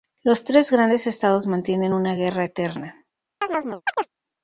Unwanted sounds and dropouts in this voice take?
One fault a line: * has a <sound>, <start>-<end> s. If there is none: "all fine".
* has a chirp, 3.4-4.1 s